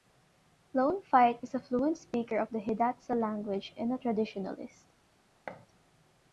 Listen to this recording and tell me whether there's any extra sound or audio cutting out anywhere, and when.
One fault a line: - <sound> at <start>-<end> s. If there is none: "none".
- thud at 5.5-5.7 s